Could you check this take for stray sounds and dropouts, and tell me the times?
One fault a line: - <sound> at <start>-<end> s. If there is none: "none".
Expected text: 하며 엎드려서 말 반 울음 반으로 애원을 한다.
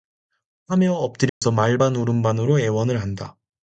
- dropout at 1.3-1.4 s